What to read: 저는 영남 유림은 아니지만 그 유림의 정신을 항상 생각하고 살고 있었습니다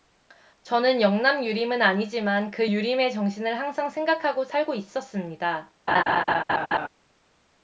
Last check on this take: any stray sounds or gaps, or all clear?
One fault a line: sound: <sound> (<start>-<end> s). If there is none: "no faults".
sound: laugh (5.9-6.9 s)